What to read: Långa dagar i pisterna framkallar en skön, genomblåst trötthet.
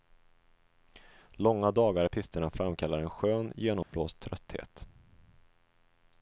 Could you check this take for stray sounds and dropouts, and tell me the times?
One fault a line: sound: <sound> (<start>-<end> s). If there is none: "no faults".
sound: dropout (3.8-3.9 s)